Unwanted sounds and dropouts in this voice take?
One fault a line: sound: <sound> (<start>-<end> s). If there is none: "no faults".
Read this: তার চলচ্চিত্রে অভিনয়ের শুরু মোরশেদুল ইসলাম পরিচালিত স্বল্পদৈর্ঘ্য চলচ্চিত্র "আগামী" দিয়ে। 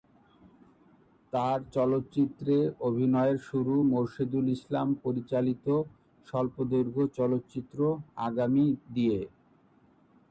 no faults